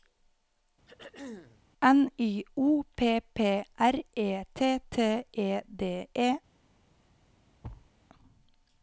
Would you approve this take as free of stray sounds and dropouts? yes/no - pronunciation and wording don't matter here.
no